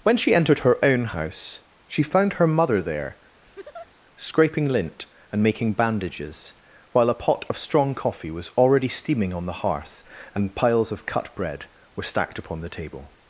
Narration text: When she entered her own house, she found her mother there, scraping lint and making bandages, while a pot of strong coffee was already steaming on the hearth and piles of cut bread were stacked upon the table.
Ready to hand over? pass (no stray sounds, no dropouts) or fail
fail